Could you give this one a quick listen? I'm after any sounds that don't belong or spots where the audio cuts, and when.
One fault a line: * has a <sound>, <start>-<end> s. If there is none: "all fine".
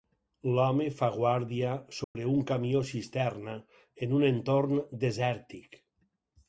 * has a dropout, 2.0-2.2 s